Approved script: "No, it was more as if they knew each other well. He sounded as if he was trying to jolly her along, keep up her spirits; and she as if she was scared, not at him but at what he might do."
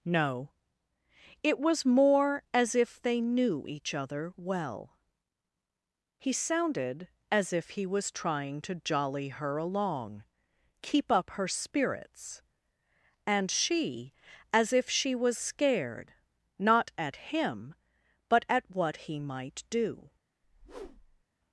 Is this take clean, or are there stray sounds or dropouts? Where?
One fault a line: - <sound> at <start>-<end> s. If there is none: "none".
- whoosh at 20.4-21.2 s